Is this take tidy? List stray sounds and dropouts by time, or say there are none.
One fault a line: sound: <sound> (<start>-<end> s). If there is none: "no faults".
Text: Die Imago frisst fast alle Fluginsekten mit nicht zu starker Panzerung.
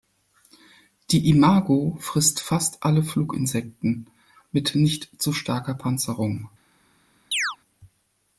sound: chirp (7.3-7.6 s)